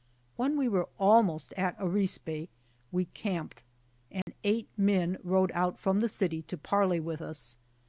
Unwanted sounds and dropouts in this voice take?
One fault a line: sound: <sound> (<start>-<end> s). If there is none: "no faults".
sound: dropout (4.2-4.3 s)